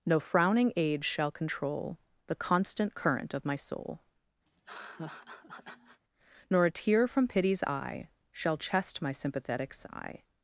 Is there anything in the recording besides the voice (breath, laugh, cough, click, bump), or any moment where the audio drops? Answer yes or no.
yes